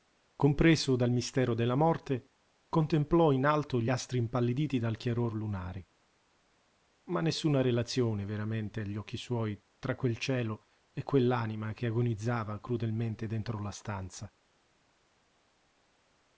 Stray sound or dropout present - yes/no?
no